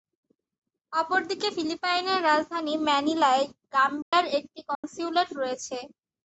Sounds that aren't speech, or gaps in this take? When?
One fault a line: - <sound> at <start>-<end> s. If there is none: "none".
- dropout at 4.0-4.1 s
- dropout at 4.7-4.8 s